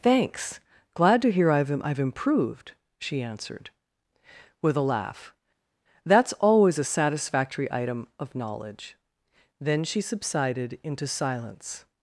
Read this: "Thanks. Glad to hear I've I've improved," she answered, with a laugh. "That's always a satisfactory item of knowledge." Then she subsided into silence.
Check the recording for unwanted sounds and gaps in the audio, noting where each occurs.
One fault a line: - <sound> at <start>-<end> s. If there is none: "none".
none